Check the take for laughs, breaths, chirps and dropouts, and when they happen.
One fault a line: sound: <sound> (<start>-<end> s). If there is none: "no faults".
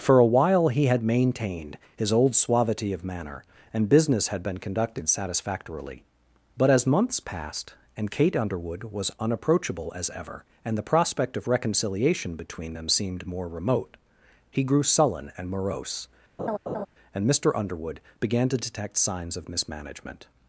sound: laugh (16.4-16.9 s)